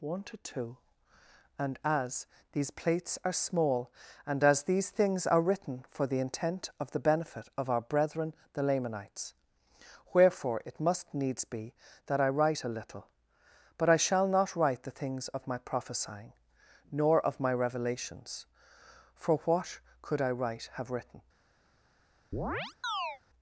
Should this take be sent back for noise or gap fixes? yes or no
yes